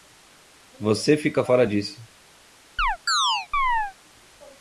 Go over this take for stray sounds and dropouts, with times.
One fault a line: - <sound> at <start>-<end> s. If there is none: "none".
- chirp at 2.8-3.9 s